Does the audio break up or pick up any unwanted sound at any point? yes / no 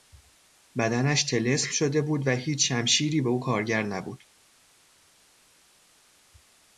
no